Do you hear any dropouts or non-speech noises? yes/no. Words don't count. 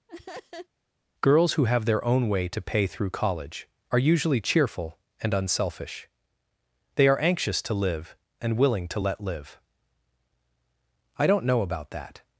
yes